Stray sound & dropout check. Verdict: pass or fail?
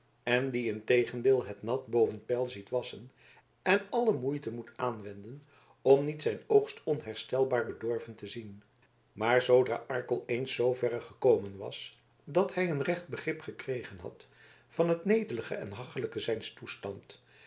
pass